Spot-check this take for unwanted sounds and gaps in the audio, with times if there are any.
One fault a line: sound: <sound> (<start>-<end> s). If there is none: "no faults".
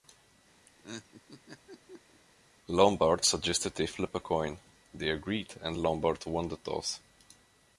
sound: laugh (0.7-2.2 s)